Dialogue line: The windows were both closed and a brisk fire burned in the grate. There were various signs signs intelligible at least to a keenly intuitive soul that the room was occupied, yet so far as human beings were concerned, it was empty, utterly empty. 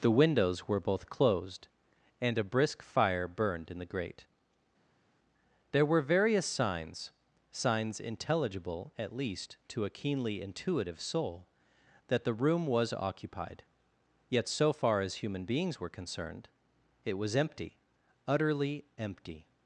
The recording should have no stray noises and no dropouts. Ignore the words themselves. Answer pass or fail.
pass